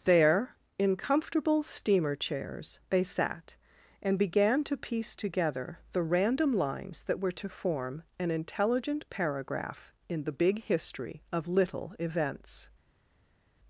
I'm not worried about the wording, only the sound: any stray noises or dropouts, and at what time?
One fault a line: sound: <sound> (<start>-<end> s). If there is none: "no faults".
no faults